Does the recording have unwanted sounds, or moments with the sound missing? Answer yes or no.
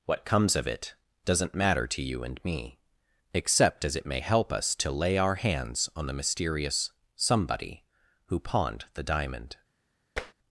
yes